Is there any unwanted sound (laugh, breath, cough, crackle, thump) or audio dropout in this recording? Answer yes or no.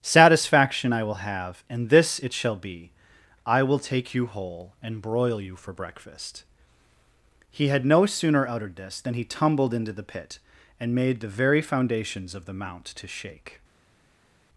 no